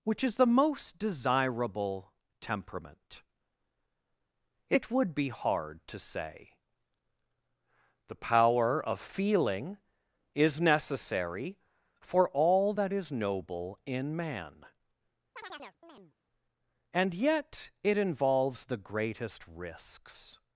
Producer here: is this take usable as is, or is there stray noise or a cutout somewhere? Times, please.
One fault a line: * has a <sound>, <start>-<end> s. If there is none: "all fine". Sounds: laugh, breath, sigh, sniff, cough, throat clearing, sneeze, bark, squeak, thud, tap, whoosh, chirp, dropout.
* has a chirp, 15.4-16.1 s